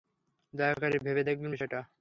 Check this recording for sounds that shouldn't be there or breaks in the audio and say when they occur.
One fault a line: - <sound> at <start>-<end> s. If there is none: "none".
none